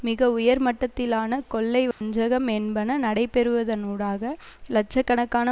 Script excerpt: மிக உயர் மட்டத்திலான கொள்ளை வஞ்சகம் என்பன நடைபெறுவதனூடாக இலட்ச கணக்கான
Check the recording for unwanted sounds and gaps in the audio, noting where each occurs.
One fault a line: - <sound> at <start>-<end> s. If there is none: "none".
- dropout at 1.9-2.0 s